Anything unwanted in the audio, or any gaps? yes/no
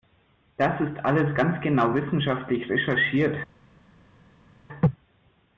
no